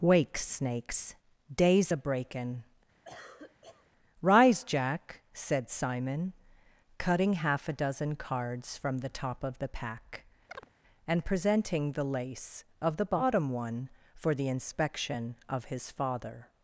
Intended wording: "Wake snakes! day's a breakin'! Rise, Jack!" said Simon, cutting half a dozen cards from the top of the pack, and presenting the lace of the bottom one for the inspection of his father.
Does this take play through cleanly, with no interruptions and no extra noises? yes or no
no